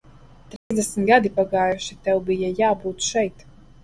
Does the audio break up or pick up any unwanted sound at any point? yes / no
yes